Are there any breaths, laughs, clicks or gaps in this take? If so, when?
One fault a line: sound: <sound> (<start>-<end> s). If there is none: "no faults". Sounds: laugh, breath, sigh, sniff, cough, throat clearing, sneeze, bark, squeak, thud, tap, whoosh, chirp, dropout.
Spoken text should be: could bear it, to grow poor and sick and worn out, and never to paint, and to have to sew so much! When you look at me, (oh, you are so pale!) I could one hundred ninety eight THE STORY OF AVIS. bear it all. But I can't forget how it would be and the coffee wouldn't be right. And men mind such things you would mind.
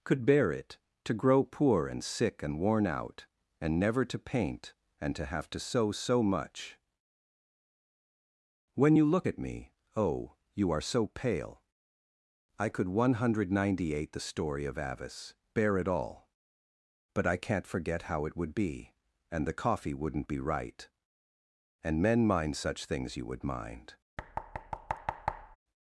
sound: thud (24.2-25.6 s)